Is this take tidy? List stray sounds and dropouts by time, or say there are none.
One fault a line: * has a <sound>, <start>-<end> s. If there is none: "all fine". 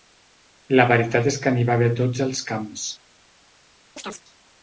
* has a chirp, 4.0-4.2 s